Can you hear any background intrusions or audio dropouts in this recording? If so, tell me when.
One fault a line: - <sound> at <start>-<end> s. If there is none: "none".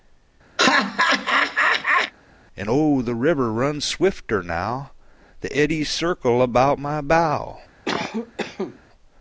- laugh at 0.6-2.1 s
- cough at 7.9-8.8 s